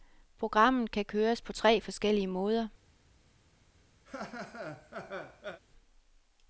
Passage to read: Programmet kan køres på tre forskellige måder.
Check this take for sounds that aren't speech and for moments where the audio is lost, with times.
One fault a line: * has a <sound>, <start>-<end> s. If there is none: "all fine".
* has a laugh, 4.1-5.6 s